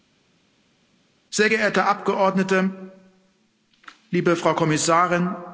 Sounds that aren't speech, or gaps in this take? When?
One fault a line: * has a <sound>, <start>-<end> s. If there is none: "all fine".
all fine